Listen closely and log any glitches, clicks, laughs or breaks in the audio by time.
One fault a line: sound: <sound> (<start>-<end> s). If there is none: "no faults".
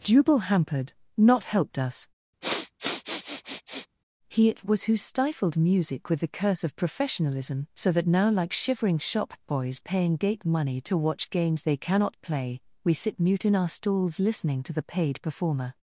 sound: sniff (2.4-3.9 s)